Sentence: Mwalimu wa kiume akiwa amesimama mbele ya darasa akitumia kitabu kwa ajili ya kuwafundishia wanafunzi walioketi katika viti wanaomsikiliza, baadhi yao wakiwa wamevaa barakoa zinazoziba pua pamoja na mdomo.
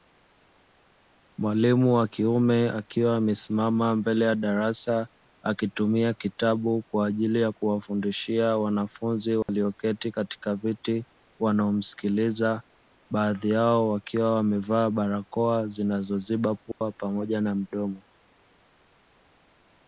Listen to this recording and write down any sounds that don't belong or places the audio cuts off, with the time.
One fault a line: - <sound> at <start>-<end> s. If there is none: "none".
- dropout at 9.4-9.5 s
- dropout at 16.7-16.8 s